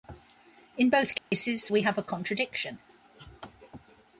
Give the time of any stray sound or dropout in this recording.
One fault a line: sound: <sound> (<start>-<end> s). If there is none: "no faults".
sound: dropout (1.2-1.3 s)